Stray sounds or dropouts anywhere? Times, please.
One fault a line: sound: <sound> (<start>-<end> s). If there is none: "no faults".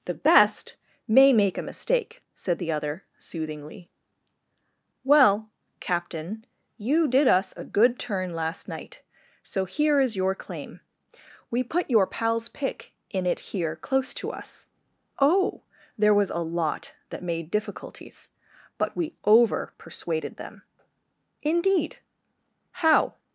no faults